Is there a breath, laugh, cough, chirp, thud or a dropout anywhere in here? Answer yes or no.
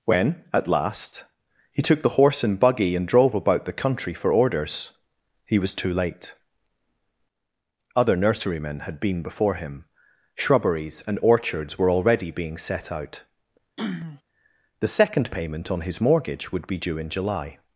yes